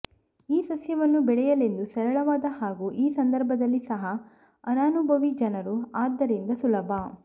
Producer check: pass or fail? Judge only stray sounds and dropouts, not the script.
pass